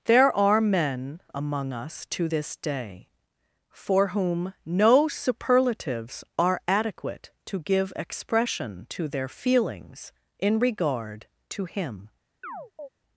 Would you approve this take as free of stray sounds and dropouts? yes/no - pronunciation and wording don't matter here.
no